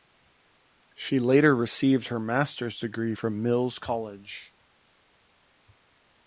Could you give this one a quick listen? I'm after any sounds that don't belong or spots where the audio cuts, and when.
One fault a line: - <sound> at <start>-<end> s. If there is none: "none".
none